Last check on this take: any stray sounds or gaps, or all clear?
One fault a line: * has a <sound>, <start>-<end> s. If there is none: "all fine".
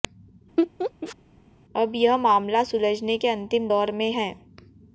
* has a laugh, 0.6-1.2 s